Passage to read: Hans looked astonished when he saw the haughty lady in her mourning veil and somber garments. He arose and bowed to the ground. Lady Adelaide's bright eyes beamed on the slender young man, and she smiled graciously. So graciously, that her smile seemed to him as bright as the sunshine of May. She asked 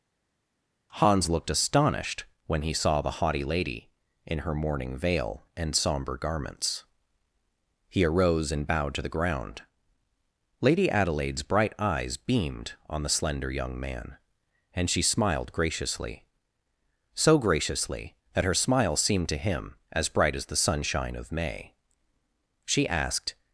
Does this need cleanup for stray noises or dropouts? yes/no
no